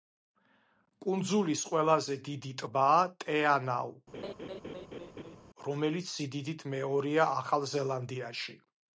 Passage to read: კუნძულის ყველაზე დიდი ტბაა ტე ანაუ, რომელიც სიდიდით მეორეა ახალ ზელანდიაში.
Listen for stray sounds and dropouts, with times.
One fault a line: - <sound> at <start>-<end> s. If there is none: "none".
- laugh at 4.1-5.4 s